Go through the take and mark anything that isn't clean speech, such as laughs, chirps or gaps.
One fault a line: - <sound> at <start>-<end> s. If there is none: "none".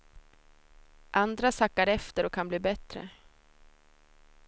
none